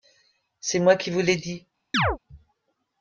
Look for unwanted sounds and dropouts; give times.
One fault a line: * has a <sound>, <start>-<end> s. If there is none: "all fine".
* has a chirp, 1.9-2.2 s